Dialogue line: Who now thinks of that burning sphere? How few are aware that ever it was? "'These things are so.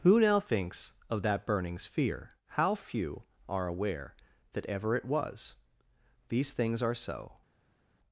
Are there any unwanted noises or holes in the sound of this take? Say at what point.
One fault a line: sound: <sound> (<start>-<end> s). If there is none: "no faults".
no faults